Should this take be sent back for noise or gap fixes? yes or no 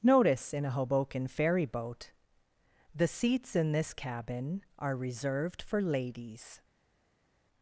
no